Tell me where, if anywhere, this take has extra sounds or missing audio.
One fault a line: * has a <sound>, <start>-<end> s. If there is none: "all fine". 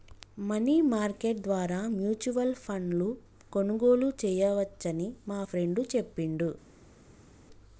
all fine